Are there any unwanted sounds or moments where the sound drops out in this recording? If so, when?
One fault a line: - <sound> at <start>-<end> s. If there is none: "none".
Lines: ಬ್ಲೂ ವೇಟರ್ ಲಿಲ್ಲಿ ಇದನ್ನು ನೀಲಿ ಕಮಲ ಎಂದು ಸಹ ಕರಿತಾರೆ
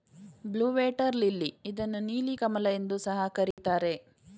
- dropout at 3.5-3.6 s